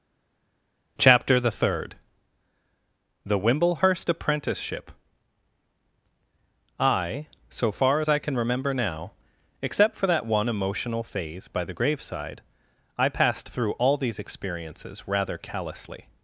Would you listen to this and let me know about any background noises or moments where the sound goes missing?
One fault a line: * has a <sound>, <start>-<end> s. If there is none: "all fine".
all fine